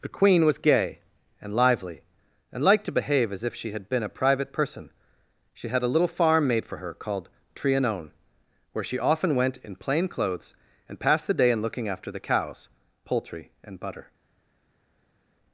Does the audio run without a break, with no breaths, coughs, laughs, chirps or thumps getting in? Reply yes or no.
yes